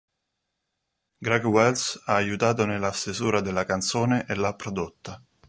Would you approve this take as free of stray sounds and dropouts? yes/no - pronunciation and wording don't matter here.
yes